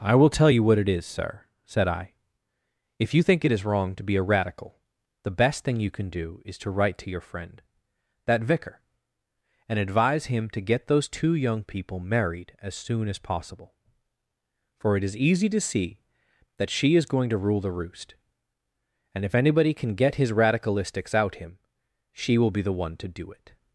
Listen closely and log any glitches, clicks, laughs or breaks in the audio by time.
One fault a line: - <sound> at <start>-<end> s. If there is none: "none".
none